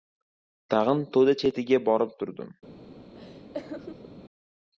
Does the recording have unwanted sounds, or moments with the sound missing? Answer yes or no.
yes